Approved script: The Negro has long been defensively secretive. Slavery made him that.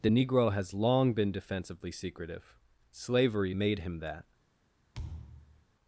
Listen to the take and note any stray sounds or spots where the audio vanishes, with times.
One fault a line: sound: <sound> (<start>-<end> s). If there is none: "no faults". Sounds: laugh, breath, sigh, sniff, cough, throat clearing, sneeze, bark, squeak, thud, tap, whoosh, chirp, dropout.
sound: thud (4.9-5.7 s)